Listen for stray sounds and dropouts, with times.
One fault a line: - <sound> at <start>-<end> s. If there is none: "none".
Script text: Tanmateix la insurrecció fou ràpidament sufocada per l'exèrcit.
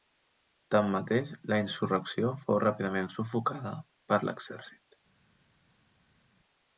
none